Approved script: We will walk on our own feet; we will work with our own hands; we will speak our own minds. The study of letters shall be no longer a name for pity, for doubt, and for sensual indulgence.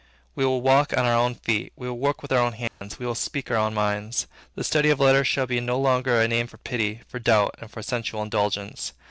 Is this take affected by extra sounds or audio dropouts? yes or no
yes